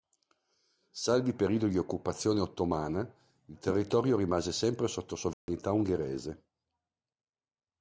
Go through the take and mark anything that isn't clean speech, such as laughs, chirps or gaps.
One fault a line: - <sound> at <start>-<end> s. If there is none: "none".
- dropout at 5.3-5.5 s